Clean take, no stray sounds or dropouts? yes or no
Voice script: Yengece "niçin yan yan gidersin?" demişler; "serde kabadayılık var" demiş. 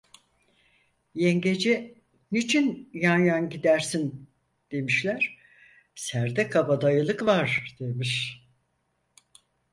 yes